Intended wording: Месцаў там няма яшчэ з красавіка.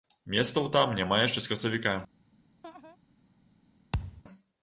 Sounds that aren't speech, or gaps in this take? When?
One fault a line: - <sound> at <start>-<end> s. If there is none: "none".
- laugh at 2.6-3.0 s
- thud at 3.9-4.2 s